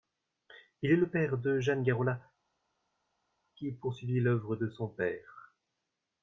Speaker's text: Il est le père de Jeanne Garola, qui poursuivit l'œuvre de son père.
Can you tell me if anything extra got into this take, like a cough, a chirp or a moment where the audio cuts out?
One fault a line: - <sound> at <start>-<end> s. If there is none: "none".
none